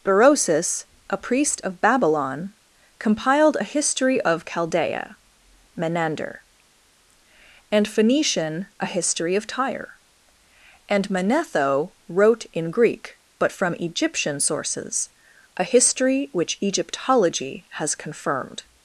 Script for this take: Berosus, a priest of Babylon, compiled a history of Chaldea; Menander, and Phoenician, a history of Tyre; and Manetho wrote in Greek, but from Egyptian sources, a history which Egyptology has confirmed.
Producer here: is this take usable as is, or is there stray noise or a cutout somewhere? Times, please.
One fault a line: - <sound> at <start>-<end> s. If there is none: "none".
none